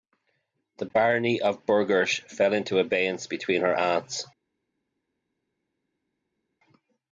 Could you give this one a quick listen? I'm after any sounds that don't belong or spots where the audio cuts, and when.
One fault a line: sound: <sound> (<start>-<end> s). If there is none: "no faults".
no faults